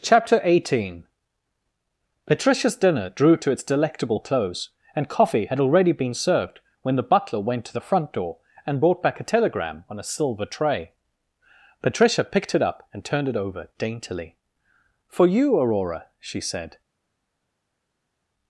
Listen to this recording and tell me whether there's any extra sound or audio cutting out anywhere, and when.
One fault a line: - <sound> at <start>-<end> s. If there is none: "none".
none